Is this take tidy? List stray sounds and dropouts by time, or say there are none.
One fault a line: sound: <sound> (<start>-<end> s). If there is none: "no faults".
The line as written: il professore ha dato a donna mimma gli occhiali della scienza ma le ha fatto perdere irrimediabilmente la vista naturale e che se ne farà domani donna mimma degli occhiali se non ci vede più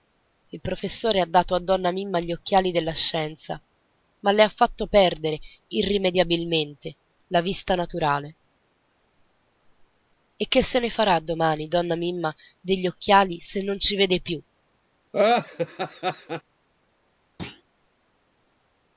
sound: laugh (15.1-16.4 s)
sound: thud (17.4-17.6 s)